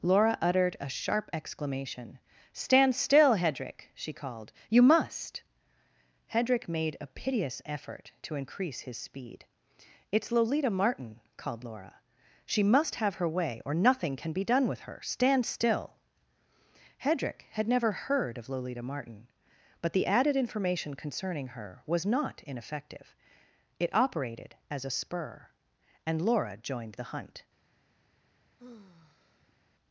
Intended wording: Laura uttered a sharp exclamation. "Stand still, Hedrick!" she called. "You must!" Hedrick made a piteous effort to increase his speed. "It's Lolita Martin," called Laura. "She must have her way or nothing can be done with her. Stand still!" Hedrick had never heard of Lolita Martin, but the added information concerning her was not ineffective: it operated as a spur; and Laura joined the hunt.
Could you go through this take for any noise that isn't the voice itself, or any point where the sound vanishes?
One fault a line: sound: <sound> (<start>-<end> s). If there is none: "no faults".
sound: sigh (28.6-29.7 s)